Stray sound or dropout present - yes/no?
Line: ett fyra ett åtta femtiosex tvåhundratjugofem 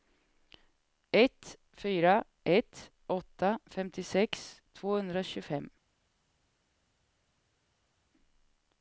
no